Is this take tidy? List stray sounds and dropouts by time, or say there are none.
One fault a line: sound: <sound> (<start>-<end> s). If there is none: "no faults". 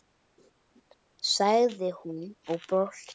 no faults